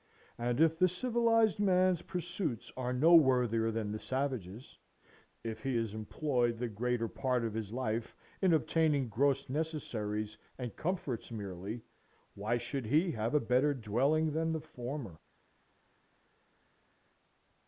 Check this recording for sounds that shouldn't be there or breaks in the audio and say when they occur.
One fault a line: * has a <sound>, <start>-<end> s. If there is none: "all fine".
all fine